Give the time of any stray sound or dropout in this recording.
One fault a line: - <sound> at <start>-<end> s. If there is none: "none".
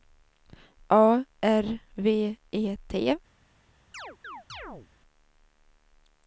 - chirp at 3.9-4.9 s